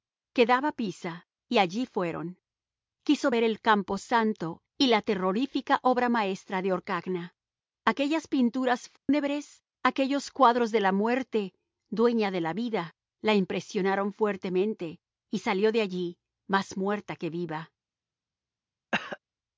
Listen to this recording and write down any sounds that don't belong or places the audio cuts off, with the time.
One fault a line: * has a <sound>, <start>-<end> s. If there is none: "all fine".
* has a dropout, 9.0-9.1 s
* has a cough, 18.9-19.2 s